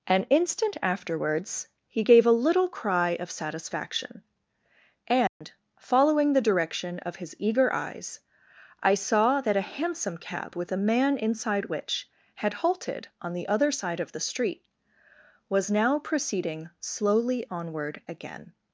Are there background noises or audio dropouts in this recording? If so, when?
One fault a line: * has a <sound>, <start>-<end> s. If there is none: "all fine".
* has a dropout, 5.3-5.4 s